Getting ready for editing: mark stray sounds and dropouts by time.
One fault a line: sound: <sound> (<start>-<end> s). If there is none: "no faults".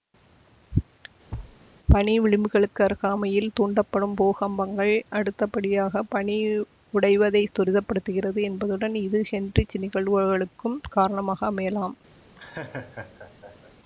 sound: thud (1.3-1.6 s)
sound: laugh (12.4-13.7 s)